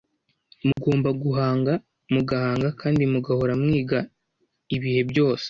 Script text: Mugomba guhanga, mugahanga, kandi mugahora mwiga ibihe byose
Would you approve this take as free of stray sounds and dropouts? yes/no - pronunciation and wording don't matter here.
no